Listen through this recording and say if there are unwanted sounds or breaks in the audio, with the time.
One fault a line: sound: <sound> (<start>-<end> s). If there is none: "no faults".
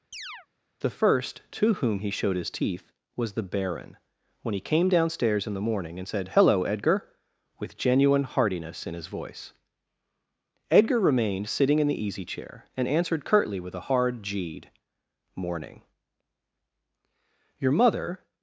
sound: chirp (0.1-0.5 s)